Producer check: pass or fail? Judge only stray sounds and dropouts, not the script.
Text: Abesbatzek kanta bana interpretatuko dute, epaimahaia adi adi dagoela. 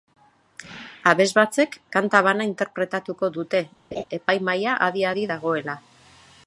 fail